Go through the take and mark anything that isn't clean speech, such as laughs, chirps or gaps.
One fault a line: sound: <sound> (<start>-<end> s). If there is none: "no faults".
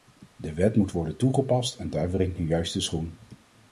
no faults